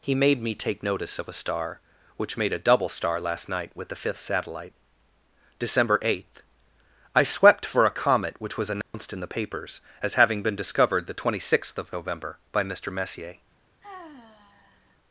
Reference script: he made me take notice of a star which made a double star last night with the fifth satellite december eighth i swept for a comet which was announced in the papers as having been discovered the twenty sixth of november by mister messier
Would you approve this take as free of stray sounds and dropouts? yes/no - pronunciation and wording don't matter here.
no